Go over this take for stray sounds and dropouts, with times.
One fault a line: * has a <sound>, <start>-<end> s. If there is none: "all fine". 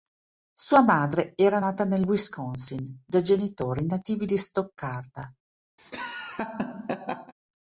* has a laugh, 5.8-7.3 s